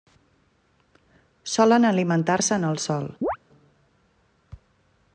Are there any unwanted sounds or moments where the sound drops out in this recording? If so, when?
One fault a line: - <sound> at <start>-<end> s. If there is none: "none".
- chirp at 3.2-3.4 s